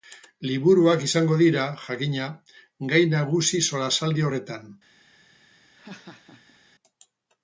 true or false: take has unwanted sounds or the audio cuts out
true